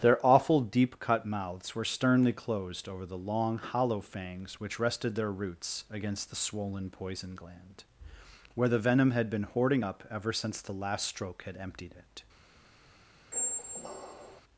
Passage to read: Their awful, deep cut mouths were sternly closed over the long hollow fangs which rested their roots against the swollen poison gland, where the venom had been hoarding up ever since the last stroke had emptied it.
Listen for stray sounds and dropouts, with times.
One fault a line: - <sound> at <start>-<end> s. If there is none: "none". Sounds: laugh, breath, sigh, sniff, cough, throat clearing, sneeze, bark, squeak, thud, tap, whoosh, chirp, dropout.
- squeak at 13.3-14.4 s